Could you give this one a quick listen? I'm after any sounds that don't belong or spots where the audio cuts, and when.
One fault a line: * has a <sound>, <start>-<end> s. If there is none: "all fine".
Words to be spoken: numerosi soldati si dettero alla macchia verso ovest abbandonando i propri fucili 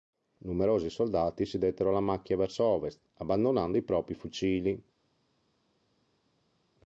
all fine